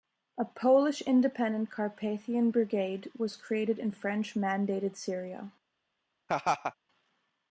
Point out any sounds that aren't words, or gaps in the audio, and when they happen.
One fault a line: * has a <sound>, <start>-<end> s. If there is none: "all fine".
* has a laugh, 6.3-6.7 s